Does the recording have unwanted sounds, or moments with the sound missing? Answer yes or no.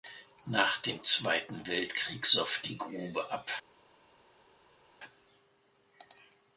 no